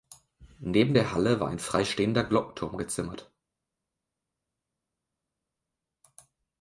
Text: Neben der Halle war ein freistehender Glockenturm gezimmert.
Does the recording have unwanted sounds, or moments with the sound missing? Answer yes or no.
no